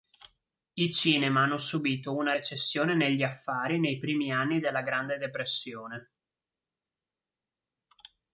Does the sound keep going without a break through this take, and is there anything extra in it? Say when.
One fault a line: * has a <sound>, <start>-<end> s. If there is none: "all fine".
all fine